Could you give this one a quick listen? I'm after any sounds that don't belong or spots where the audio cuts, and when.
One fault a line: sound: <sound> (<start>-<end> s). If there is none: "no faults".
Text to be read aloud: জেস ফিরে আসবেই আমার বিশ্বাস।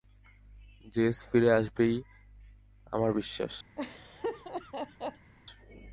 sound: laugh (3.8-5.3 s)